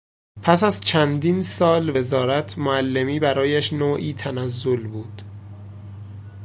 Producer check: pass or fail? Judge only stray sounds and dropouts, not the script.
pass